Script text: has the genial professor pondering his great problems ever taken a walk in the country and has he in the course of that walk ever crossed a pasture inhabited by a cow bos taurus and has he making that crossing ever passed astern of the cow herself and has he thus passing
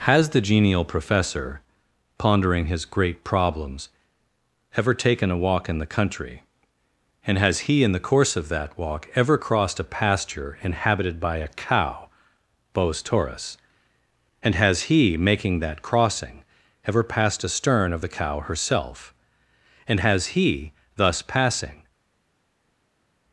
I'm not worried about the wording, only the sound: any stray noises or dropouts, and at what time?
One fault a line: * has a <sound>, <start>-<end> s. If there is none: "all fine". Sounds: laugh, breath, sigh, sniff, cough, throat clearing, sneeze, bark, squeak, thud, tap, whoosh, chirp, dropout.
all fine